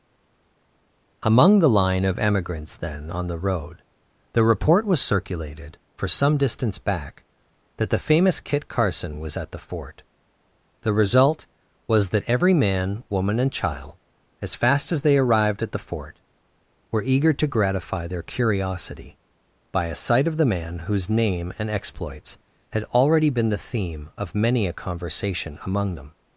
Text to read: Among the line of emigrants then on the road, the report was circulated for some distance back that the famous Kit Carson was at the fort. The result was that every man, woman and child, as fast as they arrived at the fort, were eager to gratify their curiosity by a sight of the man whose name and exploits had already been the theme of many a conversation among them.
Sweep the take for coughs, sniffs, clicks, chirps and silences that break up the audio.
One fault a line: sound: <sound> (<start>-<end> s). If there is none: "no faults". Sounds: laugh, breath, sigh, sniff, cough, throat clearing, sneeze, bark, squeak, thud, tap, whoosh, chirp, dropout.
no faults